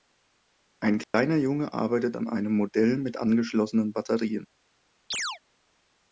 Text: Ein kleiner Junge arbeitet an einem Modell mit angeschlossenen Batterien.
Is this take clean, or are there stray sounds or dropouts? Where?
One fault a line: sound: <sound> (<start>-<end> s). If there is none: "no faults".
sound: dropout (1.0-1.1 s)
sound: chirp (5.1-5.4 s)